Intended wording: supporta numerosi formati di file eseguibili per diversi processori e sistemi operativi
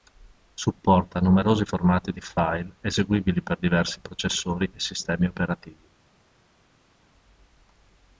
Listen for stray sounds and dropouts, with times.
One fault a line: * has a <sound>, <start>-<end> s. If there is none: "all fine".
all fine